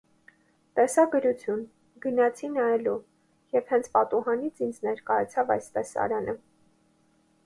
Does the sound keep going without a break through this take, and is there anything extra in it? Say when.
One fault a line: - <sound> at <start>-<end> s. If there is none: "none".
none